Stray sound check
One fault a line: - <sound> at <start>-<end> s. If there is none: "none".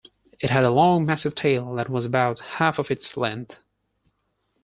none